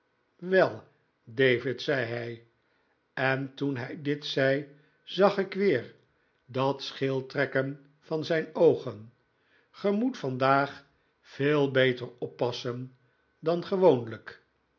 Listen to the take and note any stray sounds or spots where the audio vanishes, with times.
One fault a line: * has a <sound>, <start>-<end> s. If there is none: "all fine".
all fine